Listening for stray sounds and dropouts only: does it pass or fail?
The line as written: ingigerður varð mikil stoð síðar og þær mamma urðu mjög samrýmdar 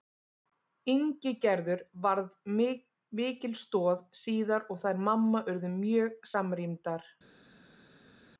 pass